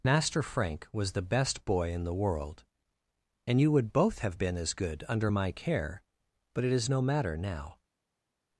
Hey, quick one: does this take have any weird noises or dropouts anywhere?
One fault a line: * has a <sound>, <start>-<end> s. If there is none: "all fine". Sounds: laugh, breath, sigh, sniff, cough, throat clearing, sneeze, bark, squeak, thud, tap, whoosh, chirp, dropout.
all fine